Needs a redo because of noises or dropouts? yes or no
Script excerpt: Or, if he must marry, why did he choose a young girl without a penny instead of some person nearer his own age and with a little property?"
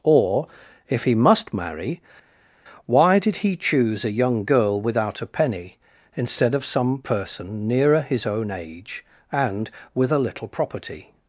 no